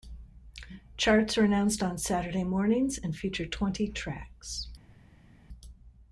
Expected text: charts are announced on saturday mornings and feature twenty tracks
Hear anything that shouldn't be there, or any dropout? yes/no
no